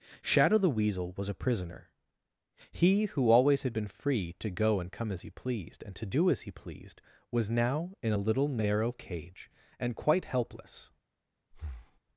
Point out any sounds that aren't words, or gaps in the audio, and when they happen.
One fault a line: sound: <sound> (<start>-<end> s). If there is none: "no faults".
sound: breath (11.5-12.0 s)